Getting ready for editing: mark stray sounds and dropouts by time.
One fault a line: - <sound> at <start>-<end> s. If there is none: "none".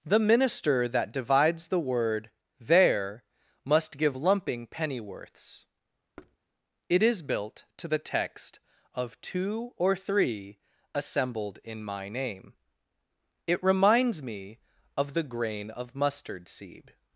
- thud at 6.2-6.4 s